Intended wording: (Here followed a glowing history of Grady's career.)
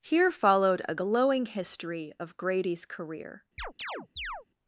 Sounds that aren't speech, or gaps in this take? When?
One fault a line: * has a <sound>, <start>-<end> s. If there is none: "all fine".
* has a chirp, 3.6-4.5 s